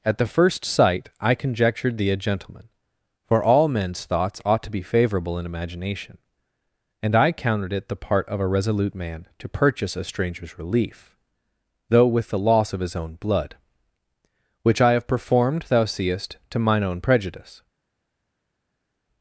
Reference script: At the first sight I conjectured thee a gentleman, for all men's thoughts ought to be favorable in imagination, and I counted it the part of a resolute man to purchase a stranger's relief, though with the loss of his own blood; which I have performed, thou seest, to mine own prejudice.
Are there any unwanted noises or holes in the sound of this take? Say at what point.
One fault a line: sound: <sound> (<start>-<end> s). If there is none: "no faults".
no faults